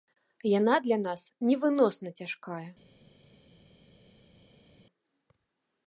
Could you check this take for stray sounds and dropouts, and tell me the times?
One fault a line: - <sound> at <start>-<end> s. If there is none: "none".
none